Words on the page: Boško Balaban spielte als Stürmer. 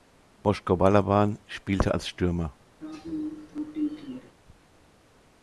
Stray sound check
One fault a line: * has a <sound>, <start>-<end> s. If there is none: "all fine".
* has a throat clearing, 2.8-4.3 s